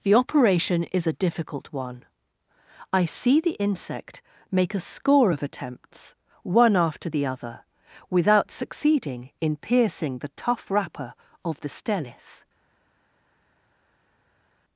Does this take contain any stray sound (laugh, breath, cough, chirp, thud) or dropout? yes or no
no